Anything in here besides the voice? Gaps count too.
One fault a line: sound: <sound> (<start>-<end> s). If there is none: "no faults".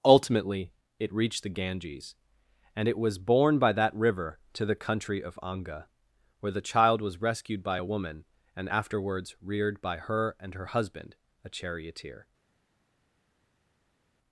no faults